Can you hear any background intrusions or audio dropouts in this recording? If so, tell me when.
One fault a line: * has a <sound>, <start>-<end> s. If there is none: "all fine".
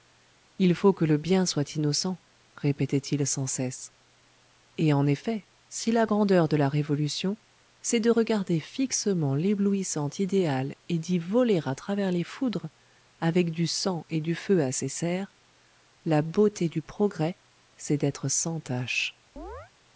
* has a chirp, 19.4-19.7 s